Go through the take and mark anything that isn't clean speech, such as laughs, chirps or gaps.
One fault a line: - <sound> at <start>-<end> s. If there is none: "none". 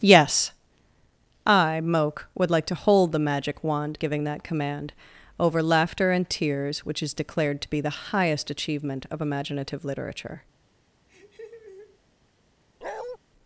- laugh at 11.1-12.0 s
- bark at 12.8-13.2 s